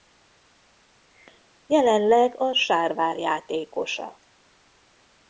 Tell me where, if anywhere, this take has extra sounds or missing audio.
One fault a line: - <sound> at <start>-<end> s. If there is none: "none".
none